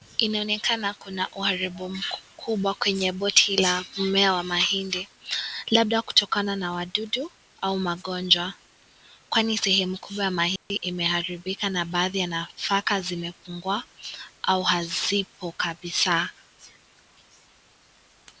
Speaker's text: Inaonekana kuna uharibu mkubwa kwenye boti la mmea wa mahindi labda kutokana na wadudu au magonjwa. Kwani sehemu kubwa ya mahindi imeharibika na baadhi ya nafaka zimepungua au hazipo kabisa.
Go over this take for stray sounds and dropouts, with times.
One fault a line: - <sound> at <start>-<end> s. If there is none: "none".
- dropout at 10.6-10.7 s